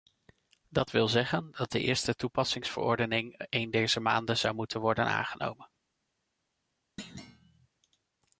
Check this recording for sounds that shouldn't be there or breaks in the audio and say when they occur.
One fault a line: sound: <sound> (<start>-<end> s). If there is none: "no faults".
sound: thud (7.0-7.7 s)